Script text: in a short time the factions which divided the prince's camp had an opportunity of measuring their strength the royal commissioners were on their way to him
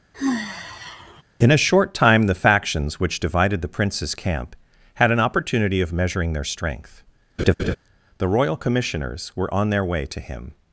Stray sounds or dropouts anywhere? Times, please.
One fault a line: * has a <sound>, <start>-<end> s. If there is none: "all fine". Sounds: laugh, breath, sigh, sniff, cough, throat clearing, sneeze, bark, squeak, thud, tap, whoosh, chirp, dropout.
* has a sigh, 0.1-1.2 s
* has a laugh, 7.4-7.8 s